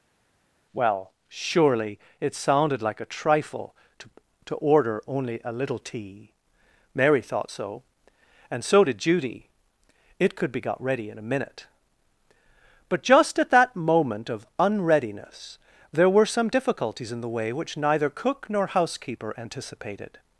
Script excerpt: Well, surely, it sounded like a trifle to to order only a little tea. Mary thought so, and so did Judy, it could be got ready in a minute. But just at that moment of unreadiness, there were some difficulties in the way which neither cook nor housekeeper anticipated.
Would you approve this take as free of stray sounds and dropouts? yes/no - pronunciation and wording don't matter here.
yes